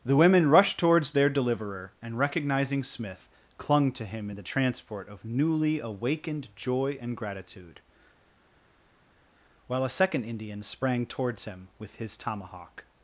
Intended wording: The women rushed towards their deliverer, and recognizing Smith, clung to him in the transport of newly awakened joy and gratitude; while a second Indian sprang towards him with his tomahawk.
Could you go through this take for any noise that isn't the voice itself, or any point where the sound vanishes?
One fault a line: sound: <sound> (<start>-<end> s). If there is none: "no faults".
no faults